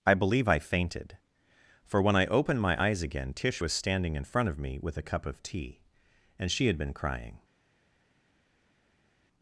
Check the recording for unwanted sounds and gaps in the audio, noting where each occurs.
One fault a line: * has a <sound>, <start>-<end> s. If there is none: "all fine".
all fine